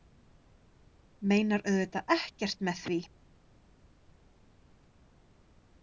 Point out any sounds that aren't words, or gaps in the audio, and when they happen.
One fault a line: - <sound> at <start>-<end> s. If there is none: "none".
none